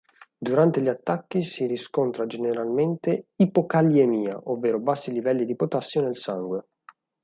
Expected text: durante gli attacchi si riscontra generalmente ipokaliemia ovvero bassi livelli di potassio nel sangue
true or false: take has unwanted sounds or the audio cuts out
false